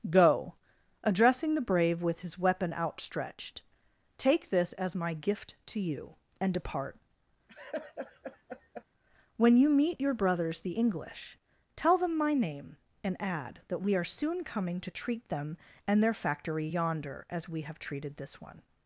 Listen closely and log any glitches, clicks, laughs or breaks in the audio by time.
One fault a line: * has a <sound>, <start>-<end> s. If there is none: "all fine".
* has a laugh, 7.5-8.9 s